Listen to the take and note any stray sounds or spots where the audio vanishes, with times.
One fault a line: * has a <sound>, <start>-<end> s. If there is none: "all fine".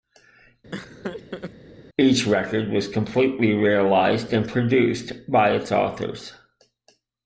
* has a laugh, 0.7-1.5 s